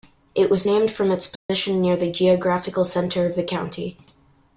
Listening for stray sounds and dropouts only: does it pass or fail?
fail